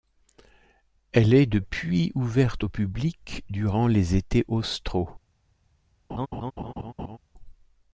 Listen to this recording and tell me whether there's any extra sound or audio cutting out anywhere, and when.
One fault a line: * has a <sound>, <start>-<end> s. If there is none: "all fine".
* has a laugh, 6.1-7.2 s